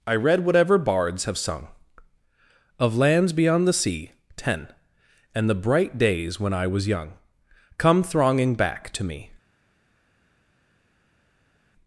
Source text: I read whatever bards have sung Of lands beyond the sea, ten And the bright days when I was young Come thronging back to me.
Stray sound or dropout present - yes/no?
no